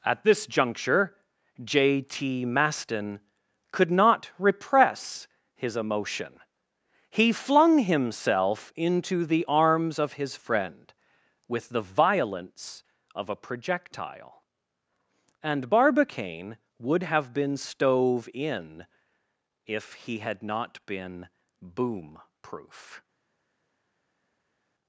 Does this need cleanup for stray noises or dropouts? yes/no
no